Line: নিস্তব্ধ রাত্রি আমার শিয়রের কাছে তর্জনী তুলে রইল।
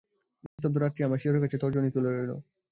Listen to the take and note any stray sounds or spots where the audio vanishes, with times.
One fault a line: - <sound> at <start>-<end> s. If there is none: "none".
- dropout at 0.5-0.6 s